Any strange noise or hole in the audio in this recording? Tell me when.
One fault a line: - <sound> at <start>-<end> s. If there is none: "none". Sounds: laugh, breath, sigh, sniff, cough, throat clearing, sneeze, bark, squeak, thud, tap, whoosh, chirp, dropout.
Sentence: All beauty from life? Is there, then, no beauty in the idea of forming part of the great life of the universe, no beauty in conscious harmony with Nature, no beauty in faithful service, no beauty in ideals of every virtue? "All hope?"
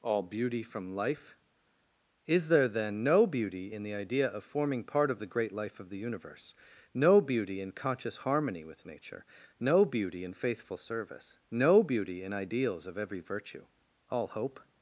none